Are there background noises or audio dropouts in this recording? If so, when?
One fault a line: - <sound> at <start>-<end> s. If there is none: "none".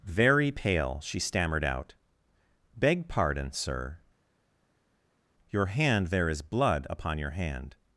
none